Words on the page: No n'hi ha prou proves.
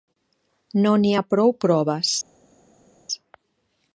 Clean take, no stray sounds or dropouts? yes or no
yes